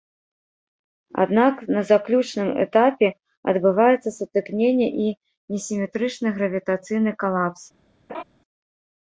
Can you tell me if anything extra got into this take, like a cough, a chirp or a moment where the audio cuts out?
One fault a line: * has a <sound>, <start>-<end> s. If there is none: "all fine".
* has a laugh, 8.1-8.2 s